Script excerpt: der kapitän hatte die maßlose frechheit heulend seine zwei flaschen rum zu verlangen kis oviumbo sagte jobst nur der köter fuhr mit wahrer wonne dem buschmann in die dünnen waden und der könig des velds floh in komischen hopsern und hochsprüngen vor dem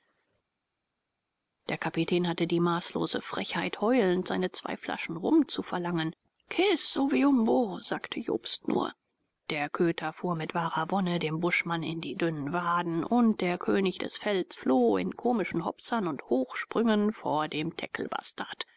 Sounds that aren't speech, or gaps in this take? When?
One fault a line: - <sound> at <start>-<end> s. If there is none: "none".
none